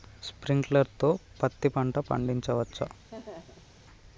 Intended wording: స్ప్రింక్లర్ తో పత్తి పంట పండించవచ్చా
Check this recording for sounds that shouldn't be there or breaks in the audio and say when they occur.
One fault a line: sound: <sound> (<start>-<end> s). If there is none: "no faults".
sound: laugh (3.1-3.7 s)